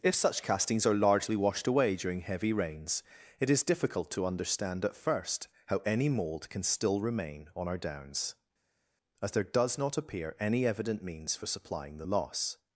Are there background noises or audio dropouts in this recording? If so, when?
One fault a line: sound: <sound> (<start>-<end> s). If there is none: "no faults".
no faults